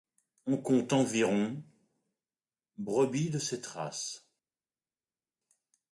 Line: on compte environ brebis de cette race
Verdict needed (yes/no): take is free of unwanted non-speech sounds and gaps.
yes